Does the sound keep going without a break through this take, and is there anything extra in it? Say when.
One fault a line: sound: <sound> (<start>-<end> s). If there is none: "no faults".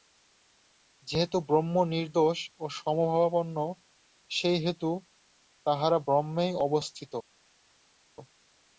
no faults